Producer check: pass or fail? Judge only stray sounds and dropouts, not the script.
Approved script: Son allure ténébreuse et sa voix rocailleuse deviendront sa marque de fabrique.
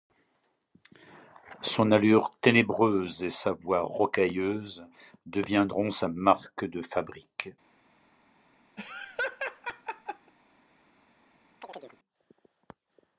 fail